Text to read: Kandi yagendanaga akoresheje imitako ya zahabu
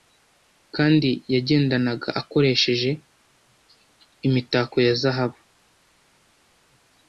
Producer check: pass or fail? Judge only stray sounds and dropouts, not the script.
pass